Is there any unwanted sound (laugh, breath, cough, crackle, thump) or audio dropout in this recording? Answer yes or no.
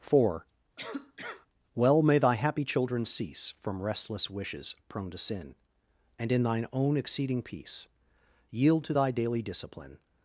yes